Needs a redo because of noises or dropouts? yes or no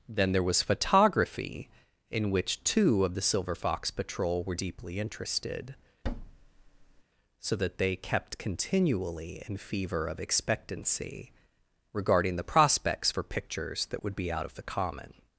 yes